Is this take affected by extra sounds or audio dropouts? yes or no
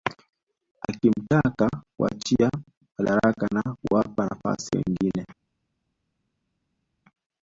no